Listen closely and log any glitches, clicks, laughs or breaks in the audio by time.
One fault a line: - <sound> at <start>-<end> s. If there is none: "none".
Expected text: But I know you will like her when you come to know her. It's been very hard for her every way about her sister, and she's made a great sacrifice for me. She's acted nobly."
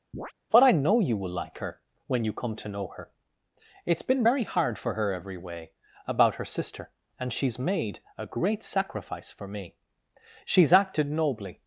- chirp at 0.1-0.3 s